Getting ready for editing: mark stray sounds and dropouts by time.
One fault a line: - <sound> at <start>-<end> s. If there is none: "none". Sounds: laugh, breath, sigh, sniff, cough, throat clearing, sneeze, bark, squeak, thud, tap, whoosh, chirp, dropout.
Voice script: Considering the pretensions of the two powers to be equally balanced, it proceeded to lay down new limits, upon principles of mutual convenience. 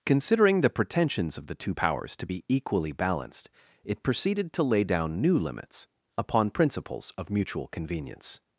none